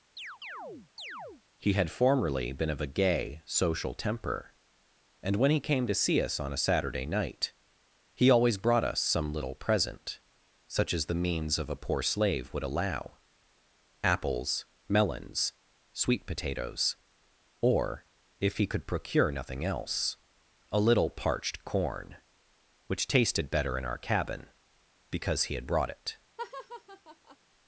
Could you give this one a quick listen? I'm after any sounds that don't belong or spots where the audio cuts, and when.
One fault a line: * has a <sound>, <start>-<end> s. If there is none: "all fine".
* has a chirp, 0.2-1.4 s
* has a laugh, 26.4-27.4 s